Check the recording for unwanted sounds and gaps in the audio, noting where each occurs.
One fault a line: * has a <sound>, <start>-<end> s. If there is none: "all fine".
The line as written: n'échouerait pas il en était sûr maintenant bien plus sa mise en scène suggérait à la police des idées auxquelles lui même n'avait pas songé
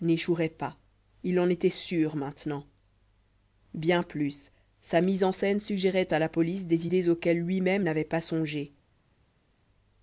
all fine